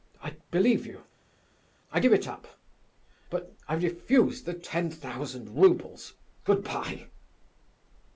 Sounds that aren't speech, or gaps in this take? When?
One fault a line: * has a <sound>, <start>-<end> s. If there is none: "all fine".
all fine